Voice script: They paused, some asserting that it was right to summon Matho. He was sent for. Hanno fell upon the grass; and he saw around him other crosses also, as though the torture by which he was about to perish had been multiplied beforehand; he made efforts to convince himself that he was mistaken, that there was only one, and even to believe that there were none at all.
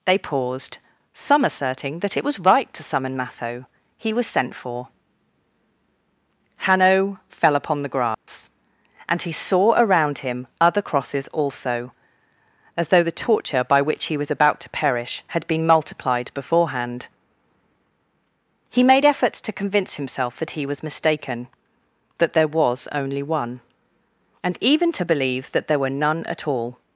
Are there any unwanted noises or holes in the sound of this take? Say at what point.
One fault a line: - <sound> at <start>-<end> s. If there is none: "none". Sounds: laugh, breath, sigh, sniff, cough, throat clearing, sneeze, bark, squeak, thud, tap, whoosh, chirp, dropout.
- dropout at 8.1-8.3 s